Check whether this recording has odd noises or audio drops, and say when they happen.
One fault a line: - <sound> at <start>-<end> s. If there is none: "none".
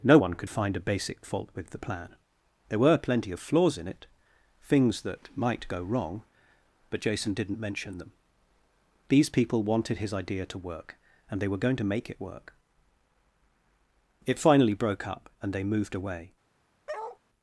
- bark at 16.9-17.2 s